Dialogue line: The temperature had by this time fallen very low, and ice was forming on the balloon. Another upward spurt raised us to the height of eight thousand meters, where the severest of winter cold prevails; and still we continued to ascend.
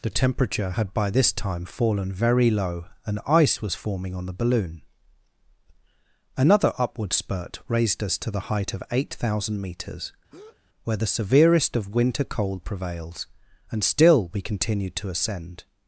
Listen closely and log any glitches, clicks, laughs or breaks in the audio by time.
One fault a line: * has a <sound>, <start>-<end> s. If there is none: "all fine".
* has a breath, 10.3-10.6 s